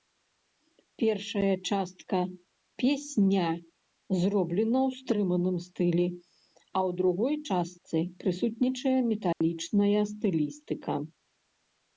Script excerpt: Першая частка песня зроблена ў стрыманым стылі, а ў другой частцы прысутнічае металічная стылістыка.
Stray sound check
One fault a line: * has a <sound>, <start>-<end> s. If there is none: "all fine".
* has a dropout, 9.3-9.4 s